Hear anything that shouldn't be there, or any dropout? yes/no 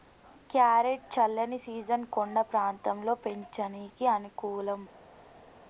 no